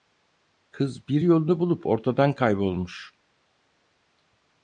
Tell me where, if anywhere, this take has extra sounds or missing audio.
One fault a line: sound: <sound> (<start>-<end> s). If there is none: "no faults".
no faults